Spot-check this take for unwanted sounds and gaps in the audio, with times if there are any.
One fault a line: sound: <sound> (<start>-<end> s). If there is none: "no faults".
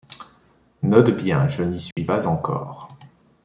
sound: dropout (1.9-2.0 s)